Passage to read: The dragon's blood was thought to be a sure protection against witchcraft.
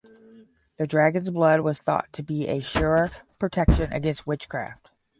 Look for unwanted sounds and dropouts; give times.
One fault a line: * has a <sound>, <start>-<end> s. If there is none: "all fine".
all fine